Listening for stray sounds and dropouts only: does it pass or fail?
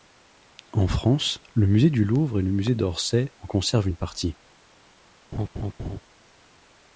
fail